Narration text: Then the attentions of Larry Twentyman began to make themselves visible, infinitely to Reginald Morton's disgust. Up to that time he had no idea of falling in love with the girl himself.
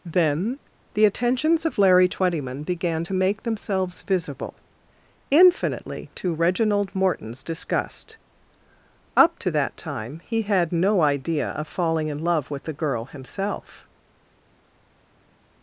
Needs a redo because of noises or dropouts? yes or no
no